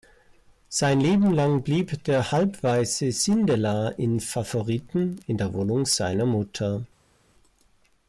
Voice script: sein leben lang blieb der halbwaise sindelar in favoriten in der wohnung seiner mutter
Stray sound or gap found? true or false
false